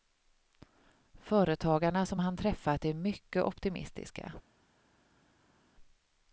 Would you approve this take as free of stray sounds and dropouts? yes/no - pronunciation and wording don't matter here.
yes